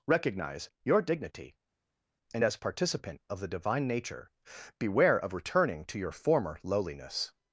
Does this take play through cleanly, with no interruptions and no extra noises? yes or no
yes